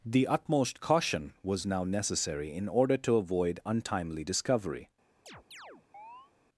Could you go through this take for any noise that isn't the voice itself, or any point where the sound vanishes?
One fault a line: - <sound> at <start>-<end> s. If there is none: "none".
- chirp at 5.3-6.3 s